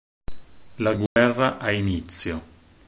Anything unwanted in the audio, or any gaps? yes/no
yes